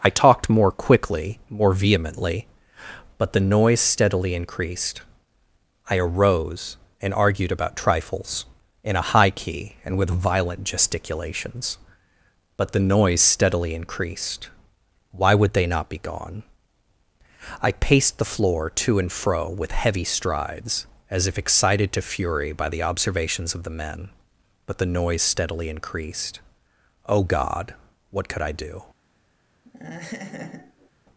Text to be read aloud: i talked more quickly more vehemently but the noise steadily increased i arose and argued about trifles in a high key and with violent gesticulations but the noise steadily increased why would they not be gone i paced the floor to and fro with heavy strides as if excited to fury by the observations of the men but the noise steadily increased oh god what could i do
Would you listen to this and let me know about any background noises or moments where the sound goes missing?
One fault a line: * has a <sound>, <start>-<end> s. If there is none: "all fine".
* has a laugh, 29.6-30.9 s